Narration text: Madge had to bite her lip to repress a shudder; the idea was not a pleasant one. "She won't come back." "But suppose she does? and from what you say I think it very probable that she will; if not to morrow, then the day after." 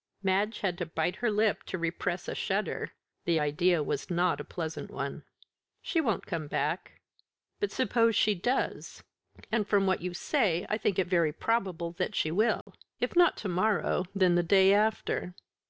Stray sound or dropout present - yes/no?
yes